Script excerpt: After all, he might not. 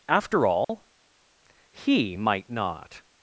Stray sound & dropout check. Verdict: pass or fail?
fail